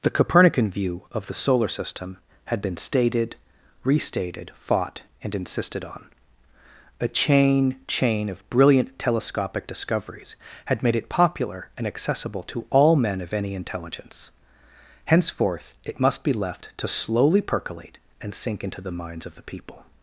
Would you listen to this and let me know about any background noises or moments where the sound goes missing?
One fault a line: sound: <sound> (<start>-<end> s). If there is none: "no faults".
no faults